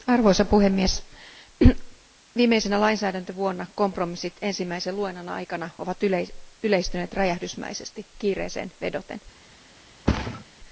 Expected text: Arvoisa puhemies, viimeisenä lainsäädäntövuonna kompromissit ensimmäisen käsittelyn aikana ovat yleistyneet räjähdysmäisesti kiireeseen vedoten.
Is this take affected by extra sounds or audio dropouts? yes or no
yes